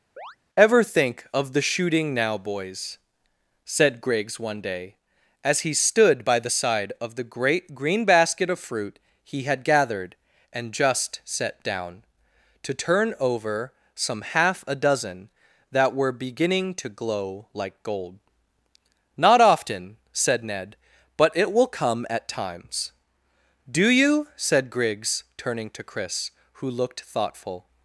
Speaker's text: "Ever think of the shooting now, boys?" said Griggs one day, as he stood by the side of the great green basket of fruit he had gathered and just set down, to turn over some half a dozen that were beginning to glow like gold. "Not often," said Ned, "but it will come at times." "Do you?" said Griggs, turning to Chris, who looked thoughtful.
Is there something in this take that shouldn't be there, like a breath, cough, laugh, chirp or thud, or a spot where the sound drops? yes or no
yes